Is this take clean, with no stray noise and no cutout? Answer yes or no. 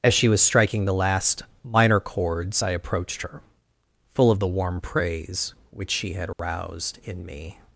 no